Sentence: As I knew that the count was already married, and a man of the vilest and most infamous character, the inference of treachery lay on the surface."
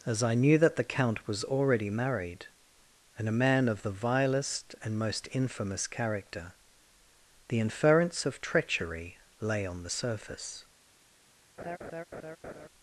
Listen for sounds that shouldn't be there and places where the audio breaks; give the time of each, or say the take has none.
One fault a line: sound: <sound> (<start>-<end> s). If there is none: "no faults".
sound: laugh (11.6-12.7 s)